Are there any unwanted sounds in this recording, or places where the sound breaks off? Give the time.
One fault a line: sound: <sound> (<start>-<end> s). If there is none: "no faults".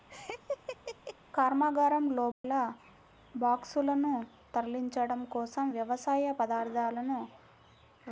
sound: laugh (0.1-1.2 s)
sound: dropout (2.3-2.4 s)